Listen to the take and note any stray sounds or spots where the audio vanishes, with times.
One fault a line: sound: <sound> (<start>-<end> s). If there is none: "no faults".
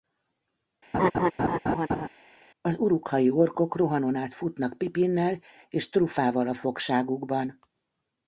sound: laugh (0.9-2.1 s)